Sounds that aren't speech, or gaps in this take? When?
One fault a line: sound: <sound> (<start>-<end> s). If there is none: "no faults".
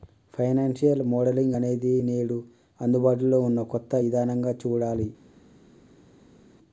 no faults